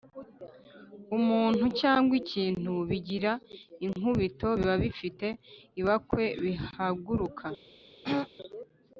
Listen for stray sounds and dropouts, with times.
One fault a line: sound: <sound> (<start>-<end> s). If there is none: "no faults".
sound: throat clearing (8.0-8.3 s)